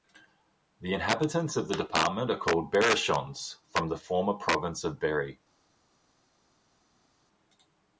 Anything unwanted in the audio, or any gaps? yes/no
no